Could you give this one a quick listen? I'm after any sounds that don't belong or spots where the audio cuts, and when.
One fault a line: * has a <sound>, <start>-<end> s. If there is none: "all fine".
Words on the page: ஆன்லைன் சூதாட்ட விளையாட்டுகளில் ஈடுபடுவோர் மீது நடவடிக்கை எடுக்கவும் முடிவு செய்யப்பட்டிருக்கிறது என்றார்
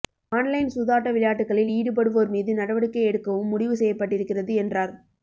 all fine